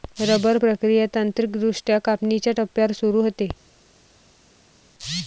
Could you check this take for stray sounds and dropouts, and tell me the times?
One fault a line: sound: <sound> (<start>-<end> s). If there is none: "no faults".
no faults